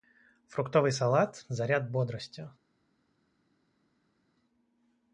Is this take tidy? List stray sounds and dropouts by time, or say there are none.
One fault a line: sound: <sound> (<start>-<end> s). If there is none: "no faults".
no faults